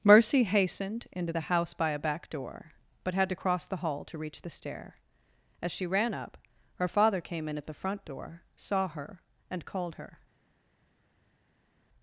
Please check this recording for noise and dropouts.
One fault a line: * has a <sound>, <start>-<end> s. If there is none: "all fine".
all fine